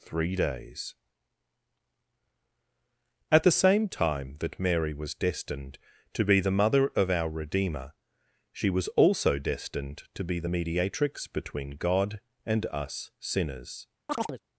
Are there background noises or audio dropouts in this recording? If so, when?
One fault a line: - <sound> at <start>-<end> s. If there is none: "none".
- chirp at 14.1-14.4 s